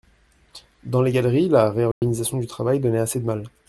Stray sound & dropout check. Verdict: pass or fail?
fail